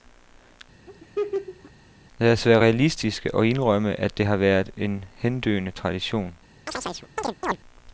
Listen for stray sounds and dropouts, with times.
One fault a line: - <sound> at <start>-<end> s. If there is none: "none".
- laugh at 0.9-1.7 s
- chirp at 6.7-7.6 s